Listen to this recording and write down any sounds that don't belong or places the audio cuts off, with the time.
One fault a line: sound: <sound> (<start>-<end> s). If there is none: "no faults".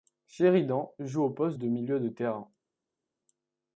no faults